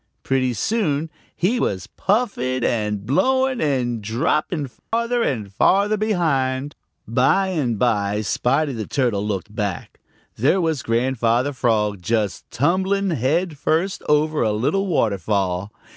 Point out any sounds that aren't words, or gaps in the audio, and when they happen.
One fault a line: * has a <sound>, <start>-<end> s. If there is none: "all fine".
* has a dropout, 4.8-4.9 s